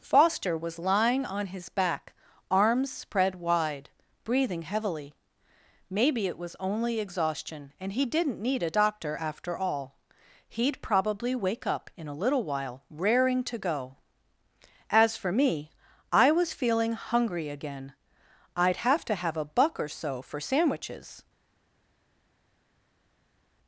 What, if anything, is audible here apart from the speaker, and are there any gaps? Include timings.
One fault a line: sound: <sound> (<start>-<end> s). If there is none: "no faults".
no faults